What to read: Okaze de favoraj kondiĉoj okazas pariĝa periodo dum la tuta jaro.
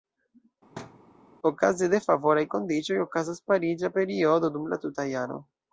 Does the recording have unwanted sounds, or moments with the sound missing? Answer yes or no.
yes